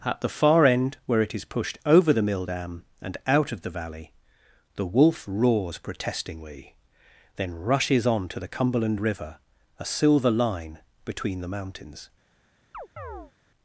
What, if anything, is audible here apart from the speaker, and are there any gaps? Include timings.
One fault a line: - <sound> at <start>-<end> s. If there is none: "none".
- chirp at 12.7-13.3 s